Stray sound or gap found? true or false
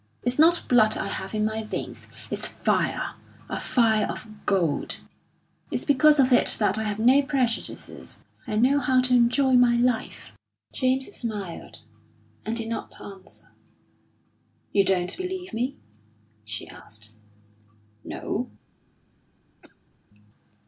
true